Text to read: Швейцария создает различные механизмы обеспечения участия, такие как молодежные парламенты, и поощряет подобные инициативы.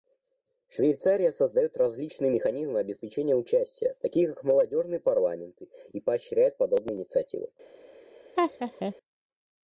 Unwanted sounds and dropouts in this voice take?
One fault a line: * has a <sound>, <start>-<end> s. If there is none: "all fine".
* has a laugh, 8.4-8.9 s